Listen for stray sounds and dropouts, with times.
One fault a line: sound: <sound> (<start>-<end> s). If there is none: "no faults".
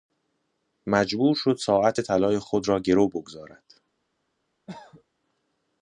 sound: cough (4.7-5.0 s)